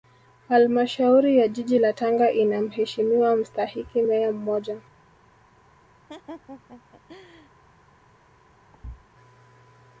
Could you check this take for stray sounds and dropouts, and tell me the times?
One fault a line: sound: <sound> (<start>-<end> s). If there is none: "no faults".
sound: laugh (6.1-7.5 s)
sound: thud (8.7-9.0 s)